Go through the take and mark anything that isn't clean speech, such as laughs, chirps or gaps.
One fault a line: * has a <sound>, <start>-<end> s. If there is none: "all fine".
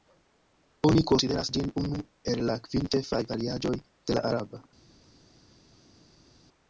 all fine